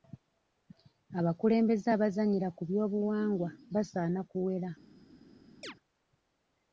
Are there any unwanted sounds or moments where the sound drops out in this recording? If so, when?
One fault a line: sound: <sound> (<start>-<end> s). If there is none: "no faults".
sound: chirp (5.6-5.7 s)